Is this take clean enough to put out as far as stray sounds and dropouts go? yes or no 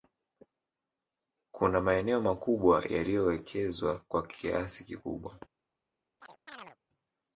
no